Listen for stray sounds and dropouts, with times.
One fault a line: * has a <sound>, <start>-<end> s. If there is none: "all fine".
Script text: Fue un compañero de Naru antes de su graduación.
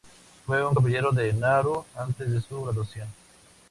all fine